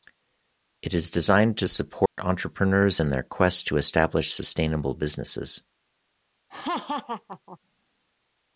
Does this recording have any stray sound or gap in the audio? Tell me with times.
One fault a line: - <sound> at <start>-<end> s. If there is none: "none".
- dropout at 2.1-2.2 s
- laugh at 6.5-7.6 s